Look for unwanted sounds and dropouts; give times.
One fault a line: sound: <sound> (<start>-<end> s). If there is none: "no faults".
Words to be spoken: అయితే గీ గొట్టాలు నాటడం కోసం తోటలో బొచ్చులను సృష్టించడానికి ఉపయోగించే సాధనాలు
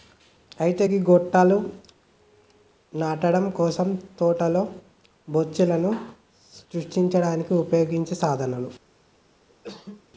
sound: cough (9.5-10.0 s)